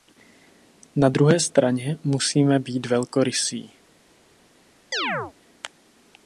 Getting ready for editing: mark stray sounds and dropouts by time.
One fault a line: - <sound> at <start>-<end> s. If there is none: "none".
- chirp at 4.9-5.3 s